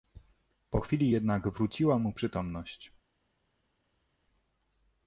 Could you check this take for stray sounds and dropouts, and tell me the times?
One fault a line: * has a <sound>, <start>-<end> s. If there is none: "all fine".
all fine